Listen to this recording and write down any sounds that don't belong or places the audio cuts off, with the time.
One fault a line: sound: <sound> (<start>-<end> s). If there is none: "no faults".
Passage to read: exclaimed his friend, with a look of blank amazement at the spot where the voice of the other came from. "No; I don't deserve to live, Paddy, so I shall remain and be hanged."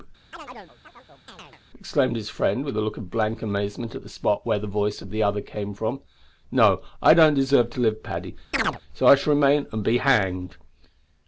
sound: chirp (0.3-1.6 s)
sound: chirp (8.5-8.8 s)